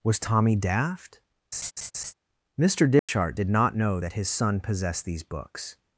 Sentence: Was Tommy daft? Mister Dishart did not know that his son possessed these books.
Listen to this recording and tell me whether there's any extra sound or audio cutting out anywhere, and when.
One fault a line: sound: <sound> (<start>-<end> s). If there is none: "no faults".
sound: laugh (1.5-2.1 s)
sound: dropout (3.0-3.1 s)